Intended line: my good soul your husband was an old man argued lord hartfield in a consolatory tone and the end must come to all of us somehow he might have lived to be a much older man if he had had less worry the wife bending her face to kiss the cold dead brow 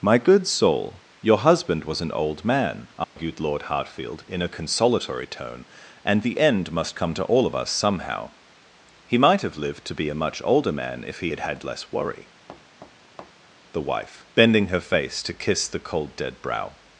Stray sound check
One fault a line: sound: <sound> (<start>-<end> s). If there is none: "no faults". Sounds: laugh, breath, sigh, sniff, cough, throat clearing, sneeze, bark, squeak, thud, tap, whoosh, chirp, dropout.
sound: dropout (3.0-3.2 s)
sound: thud (12.5-13.5 s)